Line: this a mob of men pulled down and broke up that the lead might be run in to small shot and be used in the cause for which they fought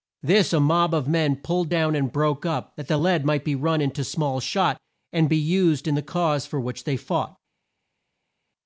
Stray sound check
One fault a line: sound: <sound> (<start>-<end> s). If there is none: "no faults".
no faults